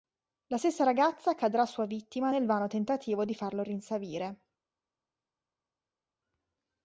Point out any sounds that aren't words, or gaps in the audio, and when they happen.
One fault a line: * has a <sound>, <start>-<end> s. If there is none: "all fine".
all fine